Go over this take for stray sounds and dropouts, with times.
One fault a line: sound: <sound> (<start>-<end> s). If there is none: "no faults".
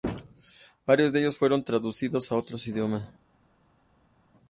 no faults